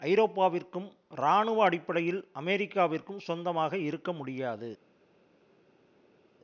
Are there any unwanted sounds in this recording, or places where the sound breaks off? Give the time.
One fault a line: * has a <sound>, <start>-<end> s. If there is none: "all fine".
all fine